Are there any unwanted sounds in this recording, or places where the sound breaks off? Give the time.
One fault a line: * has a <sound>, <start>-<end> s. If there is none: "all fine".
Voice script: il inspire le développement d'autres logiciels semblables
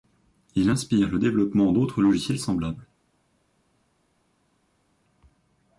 all fine